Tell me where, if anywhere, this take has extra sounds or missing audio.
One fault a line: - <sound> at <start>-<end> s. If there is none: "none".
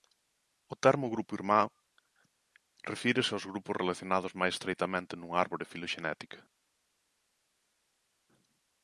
none